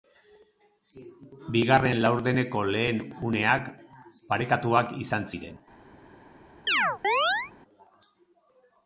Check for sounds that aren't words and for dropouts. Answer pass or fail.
fail